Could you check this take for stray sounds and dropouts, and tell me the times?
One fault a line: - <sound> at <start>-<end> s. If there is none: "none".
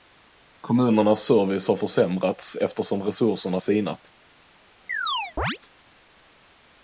- chirp at 4.9-5.6 s